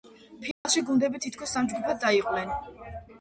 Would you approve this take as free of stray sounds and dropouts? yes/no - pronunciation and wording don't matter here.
no